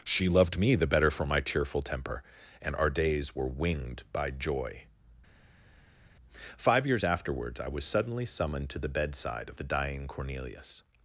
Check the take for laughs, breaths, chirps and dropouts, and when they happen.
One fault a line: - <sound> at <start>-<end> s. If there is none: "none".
none